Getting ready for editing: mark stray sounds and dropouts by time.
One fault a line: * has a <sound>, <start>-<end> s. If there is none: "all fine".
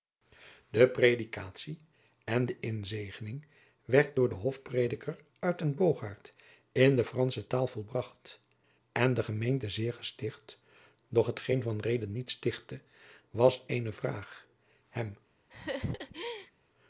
* has a laugh, 15.5-16.5 s